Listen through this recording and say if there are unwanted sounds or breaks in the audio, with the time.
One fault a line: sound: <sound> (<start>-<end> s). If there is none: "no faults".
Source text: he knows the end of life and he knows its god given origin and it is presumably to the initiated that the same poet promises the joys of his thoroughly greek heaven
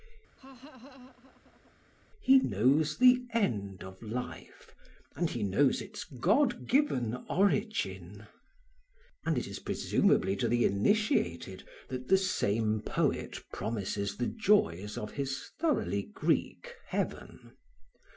sound: laugh (0.4-1.8 s)